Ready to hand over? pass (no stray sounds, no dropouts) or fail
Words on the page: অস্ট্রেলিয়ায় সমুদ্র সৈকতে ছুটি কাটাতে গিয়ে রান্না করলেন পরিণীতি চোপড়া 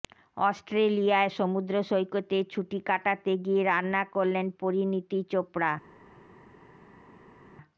pass